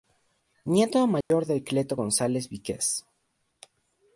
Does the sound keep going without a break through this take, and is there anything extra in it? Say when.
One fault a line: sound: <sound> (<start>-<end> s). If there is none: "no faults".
sound: dropout (1.2-1.3 s)